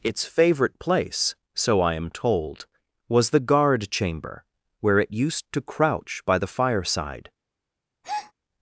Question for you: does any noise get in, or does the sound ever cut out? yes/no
yes